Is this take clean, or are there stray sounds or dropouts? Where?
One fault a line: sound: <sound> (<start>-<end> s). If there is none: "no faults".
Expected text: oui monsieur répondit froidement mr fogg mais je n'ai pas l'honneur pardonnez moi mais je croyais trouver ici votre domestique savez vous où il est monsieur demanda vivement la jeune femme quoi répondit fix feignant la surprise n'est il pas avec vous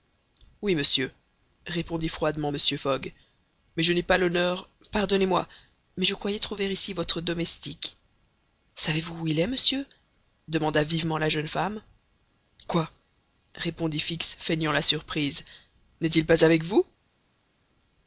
no faults